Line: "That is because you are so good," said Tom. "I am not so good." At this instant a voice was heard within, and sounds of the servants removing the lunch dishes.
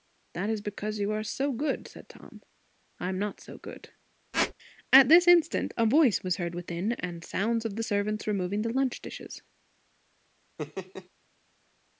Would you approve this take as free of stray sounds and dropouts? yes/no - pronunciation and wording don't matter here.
no